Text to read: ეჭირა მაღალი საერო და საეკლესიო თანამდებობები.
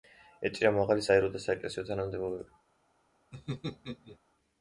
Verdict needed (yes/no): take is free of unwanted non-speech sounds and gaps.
no